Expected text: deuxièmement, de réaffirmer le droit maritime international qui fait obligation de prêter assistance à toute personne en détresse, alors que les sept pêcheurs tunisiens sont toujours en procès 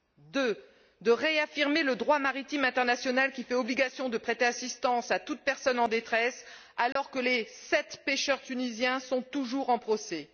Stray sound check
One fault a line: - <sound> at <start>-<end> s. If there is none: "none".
- dropout at 6.9-7.0 s